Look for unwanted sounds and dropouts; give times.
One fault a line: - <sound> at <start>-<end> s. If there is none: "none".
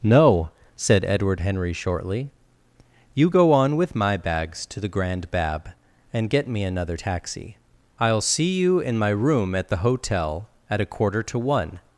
none